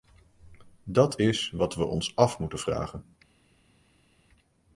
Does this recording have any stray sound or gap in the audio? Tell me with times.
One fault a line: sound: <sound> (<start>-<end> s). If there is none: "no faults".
no faults